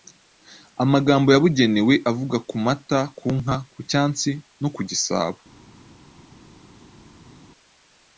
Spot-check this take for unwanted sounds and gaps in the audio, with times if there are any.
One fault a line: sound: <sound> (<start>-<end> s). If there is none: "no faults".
no faults